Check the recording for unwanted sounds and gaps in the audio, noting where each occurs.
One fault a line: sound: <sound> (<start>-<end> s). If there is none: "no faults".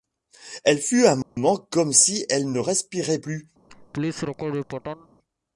sound: dropout (1.2-1.4 s)
sound: laugh (3.7-5.1 s)